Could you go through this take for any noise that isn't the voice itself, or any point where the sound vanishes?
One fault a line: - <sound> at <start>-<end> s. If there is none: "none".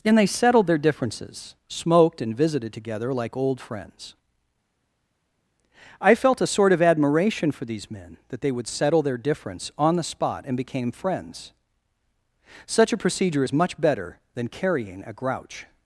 none